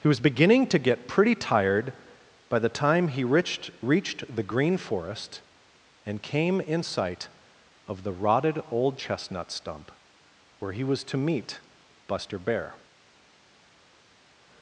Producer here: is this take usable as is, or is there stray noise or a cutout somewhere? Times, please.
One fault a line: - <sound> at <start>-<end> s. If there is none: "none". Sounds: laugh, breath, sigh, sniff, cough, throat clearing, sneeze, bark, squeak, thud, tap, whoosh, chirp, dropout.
none